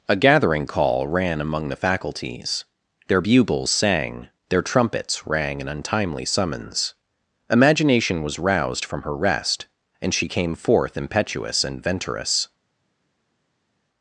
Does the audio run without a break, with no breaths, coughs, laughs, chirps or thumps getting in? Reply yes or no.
yes